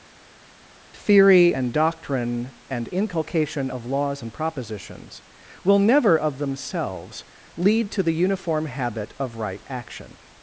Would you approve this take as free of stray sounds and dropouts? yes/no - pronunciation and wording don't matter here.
yes